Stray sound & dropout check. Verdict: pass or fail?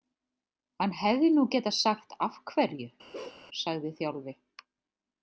fail